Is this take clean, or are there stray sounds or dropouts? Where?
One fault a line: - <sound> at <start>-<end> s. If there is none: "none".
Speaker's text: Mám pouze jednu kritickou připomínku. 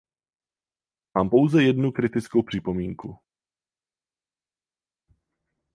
none